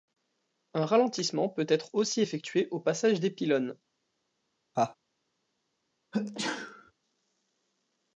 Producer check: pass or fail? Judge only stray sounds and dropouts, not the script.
fail